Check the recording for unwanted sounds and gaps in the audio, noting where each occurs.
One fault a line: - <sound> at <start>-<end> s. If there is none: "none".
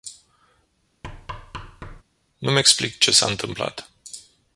- thud at 1.0-2.0 s